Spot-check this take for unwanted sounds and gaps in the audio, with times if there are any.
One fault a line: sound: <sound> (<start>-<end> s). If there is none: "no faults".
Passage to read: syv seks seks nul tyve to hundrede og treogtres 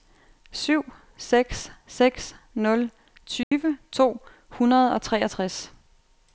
sound: dropout (3.4-3.5 s)